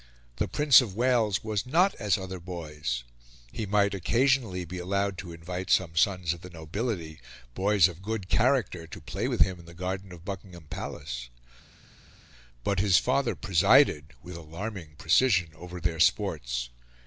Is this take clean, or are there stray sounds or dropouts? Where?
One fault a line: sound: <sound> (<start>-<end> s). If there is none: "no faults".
no faults